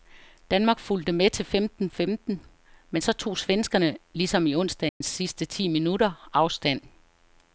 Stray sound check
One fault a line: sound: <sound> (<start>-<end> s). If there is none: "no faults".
sound: dropout (4.9-5.0 s)